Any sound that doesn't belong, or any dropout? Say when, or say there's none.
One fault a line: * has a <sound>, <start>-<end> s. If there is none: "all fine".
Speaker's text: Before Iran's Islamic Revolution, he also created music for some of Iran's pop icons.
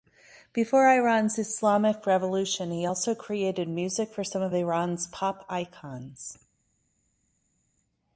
all fine